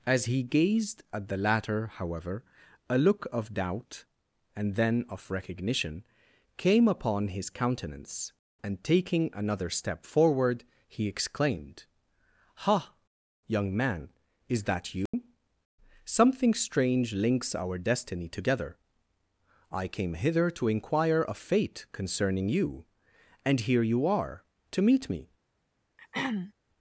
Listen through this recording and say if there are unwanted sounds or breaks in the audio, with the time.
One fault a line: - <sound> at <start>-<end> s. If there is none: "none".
- dropout at 15.1-15.1 s
- throat clearing at 26.0-26.5 s